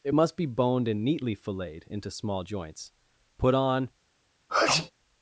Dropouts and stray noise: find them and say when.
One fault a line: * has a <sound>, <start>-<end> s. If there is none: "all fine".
* has a sneeze, 4.5-4.9 s